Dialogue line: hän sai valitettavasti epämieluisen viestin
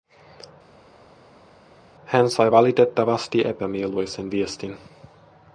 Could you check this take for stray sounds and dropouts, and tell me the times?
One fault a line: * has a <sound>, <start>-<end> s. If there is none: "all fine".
all fine